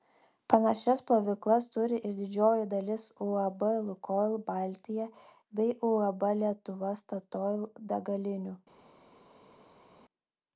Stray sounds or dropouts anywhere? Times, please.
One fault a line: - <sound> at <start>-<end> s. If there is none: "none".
none